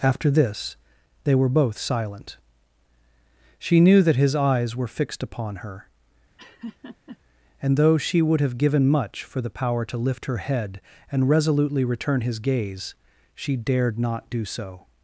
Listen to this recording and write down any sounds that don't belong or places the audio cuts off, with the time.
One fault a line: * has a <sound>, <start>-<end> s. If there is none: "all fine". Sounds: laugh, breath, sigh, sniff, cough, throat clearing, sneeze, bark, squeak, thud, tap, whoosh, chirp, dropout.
* has a laugh, 6.4-7.2 s